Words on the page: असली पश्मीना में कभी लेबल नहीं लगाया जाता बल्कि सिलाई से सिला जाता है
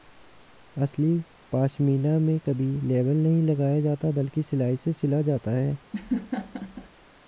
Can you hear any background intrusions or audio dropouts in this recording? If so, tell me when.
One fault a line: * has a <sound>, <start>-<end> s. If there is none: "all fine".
* has a laugh, 5.9-6.9 s